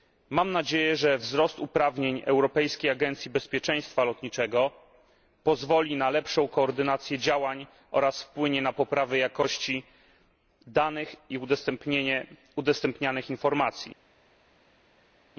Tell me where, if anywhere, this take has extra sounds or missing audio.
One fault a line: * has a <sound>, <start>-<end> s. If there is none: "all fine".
all fine